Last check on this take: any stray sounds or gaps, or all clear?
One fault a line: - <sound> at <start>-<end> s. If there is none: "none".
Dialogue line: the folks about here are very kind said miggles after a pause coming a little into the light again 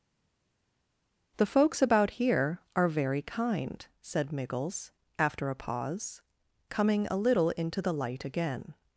none